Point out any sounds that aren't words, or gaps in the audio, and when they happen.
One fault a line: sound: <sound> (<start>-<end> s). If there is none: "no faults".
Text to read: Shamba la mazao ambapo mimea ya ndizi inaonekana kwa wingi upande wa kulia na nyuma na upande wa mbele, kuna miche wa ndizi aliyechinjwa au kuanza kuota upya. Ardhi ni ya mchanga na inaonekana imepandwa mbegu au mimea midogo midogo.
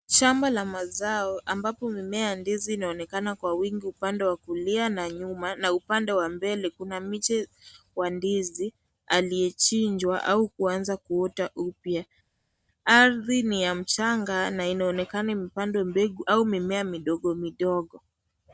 no faults